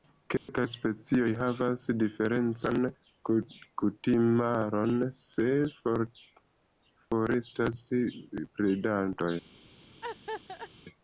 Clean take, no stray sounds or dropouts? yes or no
no